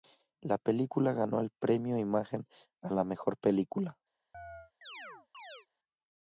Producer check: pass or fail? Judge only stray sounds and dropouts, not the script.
fail